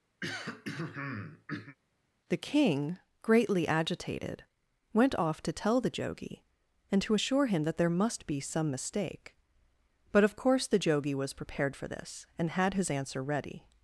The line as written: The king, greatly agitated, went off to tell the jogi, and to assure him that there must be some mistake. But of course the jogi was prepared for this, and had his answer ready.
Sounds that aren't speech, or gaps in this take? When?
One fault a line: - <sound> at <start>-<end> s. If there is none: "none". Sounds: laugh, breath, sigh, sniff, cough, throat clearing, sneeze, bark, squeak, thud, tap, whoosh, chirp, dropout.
- throat clearing at 0.2-1.8 s